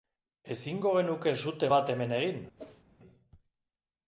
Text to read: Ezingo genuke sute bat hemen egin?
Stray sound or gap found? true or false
true